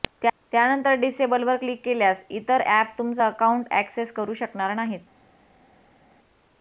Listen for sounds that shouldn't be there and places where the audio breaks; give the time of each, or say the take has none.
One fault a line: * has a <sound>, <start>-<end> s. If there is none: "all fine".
all fine